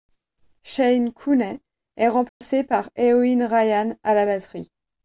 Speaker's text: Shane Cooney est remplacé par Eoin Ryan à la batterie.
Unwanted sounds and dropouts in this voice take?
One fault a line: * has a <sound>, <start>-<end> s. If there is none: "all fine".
* has a dropout, 2.3-2.4 s